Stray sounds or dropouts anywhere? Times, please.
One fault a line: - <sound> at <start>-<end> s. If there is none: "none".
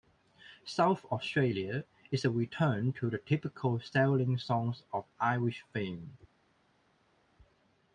none